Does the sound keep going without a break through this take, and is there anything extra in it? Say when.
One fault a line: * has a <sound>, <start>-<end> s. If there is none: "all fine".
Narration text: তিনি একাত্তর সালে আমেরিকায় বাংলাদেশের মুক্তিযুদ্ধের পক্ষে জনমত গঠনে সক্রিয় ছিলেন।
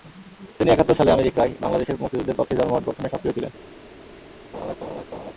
* has a laugh, 4.5-5.3 s